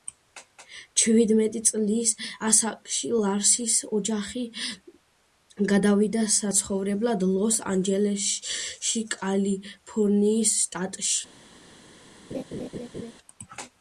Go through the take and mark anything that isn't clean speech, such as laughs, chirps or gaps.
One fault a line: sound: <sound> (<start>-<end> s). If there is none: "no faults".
sound: laugh (12.3-13.1 s)